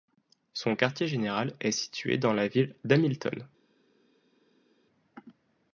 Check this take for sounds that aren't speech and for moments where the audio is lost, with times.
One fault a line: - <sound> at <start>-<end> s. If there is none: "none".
none